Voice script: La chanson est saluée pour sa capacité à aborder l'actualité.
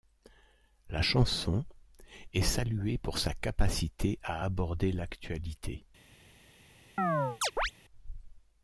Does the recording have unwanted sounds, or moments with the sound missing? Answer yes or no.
yes